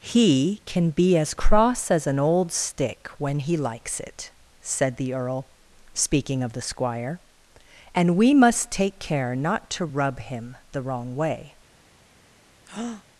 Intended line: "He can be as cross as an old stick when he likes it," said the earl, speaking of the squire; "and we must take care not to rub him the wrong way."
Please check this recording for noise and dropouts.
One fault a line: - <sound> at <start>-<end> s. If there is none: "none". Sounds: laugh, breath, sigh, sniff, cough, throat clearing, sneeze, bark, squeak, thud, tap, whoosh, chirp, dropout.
- breath at 12.7-13.0 s